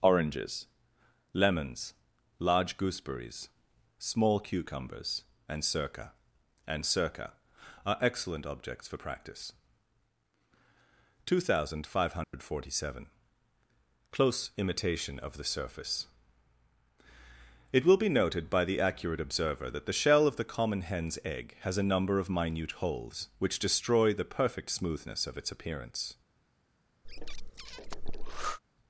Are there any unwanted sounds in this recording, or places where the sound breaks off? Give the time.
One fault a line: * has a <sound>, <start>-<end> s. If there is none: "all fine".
* has a dropout, 12.2-12.3 s
* has a breath, 27.0-28.6 s